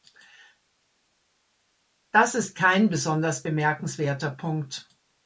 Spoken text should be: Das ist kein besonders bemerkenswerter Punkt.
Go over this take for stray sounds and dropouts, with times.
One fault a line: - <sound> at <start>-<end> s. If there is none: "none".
none